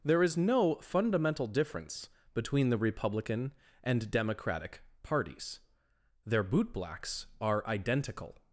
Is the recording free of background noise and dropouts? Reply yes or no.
yes